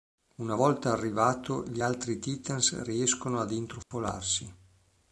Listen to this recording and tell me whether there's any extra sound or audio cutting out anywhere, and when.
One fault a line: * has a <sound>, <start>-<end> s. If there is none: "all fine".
* has a dropout, 3.8-3.9 s